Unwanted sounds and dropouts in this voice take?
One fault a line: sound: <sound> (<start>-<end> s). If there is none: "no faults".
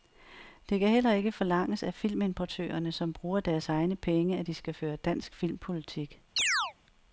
sound: chirp (6.4-6.7 s)